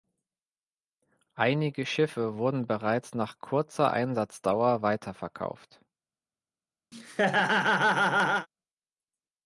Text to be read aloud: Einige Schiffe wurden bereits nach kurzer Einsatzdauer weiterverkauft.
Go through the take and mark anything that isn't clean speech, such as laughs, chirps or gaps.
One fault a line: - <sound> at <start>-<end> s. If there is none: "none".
- laugh at 6.9-8.5 s